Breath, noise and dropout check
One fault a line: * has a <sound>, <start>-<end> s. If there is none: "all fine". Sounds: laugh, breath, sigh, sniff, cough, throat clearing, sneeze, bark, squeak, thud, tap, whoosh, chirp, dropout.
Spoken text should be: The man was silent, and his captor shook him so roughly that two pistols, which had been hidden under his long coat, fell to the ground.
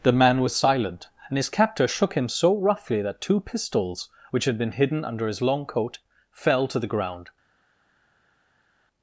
all fine